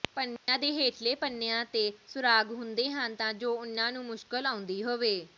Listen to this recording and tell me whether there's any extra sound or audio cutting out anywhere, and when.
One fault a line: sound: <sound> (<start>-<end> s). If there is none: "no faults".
sound: dropout (0.4-0.5 s)